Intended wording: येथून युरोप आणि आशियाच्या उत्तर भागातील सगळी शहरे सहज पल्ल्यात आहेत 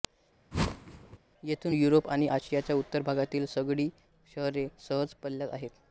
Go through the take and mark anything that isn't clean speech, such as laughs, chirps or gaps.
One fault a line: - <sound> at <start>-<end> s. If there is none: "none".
- whoosh at 0.5-1.2 s